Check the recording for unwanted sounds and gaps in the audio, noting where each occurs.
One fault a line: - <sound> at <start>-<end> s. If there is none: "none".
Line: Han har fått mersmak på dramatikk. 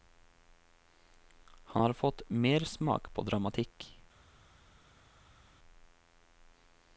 none